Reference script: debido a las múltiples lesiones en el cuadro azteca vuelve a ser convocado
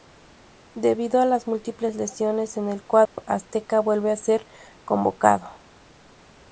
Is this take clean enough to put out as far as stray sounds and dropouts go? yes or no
no